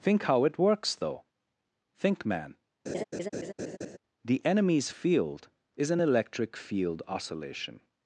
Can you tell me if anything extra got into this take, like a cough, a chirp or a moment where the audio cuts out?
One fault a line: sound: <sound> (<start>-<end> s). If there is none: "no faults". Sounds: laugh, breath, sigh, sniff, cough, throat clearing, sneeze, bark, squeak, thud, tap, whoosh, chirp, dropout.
sound: laugh (2.9-4.0 s)